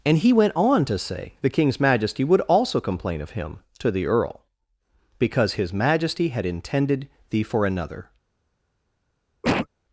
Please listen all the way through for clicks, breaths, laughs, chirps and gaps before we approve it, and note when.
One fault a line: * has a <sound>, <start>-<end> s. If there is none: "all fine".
* has a cough, 9.4-9.7 s